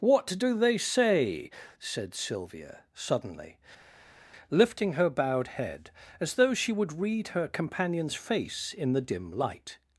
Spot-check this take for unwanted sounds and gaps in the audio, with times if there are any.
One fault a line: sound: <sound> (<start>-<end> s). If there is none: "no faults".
no faults